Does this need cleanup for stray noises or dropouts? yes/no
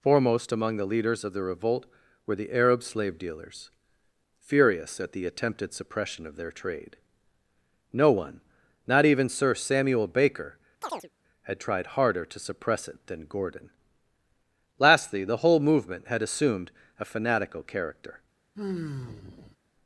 yes